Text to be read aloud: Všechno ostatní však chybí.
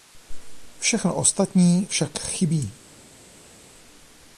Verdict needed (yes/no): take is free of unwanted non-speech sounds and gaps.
yes